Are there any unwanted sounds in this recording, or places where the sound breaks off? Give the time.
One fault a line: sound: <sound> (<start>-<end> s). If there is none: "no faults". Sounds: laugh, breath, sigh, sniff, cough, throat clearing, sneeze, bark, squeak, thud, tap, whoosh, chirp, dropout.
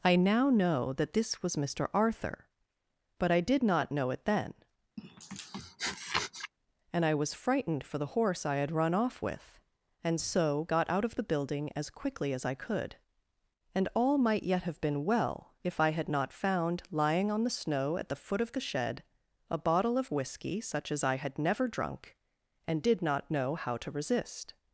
sound: sniff (5.0-6.5 s)